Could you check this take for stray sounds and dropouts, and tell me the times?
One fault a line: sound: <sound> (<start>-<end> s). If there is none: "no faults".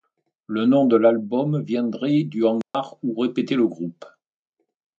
sound: dropout (2.6-2.7 s)